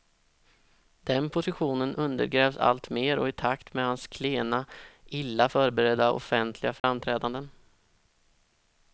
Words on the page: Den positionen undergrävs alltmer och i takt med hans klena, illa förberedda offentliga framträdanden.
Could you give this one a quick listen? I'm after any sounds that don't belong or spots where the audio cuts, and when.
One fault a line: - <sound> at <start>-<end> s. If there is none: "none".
- dropout at 6.8-6.8 s